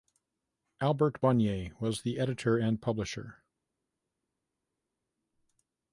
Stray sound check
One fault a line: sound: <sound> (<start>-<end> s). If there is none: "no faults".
no faults